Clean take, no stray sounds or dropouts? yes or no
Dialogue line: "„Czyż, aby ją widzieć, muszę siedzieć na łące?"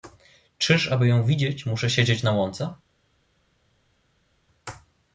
yes